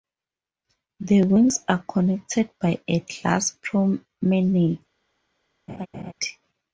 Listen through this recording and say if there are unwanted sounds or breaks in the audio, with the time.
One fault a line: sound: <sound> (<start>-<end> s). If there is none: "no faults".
sound: laugh (5.7-6.1 s)